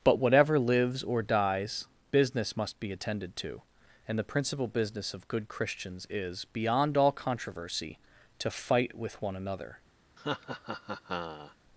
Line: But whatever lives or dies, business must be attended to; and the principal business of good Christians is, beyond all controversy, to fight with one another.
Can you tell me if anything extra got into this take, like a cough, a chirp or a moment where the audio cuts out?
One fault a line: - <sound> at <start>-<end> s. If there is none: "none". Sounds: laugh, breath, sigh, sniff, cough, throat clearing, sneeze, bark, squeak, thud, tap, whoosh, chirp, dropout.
- laugh at 10.2-11.6 s